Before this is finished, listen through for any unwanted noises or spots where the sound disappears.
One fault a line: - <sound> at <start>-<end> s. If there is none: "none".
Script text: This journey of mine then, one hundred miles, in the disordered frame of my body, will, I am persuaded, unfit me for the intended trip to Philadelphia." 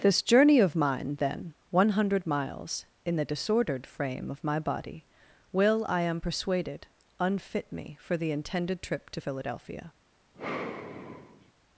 - sigh at 10.3-11.5 s